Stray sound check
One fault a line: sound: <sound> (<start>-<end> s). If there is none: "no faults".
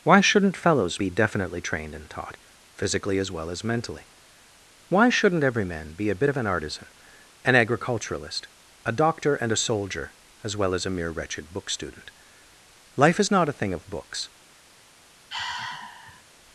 sound: sigh (15.3-16.2 s)